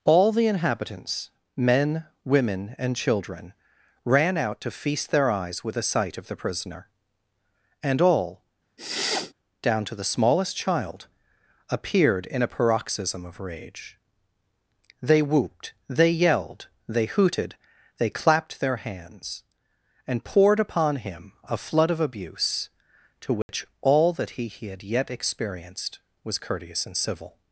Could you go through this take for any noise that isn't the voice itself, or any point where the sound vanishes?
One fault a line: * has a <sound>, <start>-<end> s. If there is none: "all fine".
* has a sniff, 8.8-9.3 s
* has a dropout, 23.4-23.5 s